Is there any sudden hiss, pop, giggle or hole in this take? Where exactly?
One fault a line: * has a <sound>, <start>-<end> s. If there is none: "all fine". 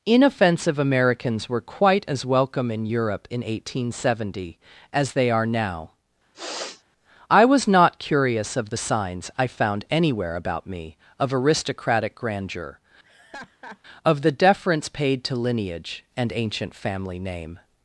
* has a sniff, 6.3-6.8 s
* has a laugh, 13.0-13.8 s